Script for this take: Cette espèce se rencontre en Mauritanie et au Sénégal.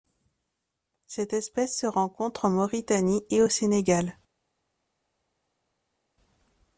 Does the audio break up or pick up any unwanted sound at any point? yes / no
no